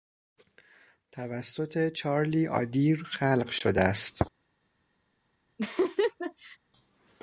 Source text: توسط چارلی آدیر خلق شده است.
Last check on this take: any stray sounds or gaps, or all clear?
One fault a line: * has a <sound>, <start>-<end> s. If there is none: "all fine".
* has a laugh, 5.6-6.6 s